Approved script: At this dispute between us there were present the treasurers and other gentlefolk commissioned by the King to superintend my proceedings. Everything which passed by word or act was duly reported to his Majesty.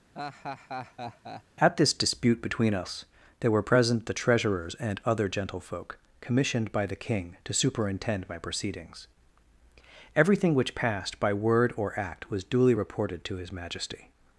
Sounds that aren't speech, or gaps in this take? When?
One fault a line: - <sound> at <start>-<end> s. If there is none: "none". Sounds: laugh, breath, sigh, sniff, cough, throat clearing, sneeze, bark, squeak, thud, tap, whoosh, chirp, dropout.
- laugh at 0.1-1.4 s